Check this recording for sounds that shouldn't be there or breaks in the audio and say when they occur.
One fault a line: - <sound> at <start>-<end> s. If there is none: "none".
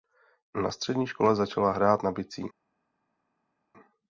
none